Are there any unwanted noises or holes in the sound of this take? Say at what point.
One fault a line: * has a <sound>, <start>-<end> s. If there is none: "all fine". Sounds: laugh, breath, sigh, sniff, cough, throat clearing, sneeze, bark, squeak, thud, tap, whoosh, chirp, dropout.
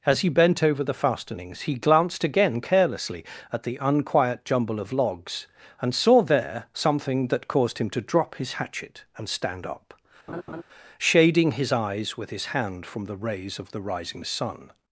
* has a laugh, 10.3-10.6 s